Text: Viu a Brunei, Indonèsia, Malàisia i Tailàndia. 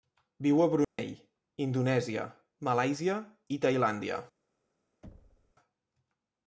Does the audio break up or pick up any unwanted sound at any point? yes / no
yes